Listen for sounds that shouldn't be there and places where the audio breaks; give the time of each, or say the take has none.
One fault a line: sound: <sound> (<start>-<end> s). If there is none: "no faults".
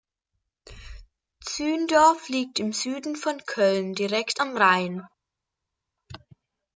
no faults